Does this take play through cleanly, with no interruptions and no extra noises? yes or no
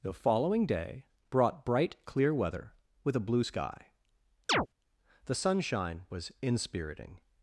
no